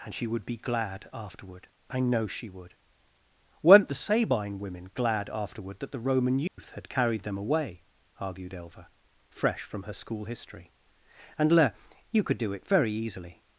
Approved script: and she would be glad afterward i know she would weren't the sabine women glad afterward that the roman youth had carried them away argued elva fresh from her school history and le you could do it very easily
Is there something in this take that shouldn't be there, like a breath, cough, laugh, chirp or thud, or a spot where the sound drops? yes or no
yes